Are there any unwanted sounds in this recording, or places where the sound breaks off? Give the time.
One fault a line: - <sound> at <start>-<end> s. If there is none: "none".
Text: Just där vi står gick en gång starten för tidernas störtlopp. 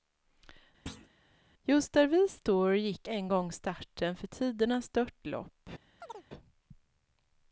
- thud at 0.9-1.1 s
- chirp at 6.0-6.3 s